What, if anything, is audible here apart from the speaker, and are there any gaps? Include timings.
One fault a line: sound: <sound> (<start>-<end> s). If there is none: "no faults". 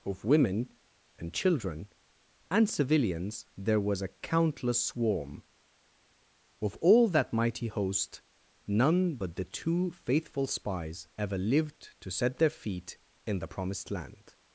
no faults